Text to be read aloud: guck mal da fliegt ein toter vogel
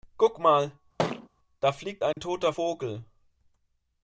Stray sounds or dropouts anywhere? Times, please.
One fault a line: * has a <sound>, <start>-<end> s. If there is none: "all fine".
* has a thud, 1.0-1.3 s
* has a dropout, 2.1-2.2 s